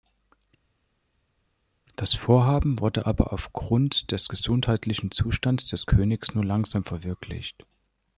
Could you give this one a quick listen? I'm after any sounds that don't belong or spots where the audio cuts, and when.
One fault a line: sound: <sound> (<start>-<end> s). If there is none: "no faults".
no faults